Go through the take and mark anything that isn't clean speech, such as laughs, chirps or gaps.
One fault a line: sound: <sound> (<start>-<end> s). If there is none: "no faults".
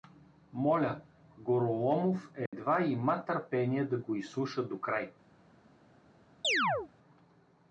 sound: dropout (2.5-2.5 s)
sound: chirp (6.4-6.9 s)